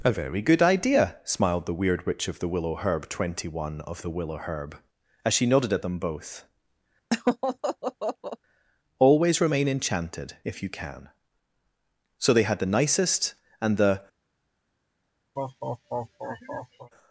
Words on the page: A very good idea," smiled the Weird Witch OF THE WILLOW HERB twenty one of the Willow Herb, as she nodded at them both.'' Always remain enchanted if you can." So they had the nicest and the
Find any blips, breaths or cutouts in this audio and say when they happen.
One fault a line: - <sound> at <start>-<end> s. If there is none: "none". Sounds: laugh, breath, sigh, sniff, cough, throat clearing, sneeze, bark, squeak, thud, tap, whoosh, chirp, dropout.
- laugh at 7.1-8.4 s
- laugh at 15.4-16.9 s